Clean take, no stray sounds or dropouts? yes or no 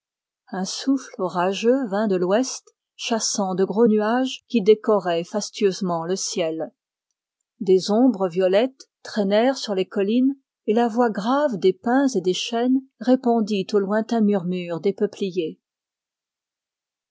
yes